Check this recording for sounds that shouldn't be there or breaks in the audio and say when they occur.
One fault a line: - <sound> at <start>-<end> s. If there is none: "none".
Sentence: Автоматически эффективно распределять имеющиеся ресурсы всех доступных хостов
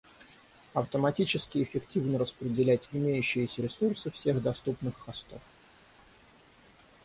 none